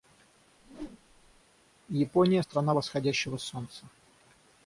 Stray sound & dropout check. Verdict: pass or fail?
fail